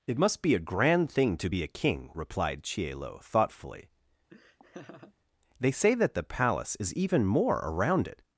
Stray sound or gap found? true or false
true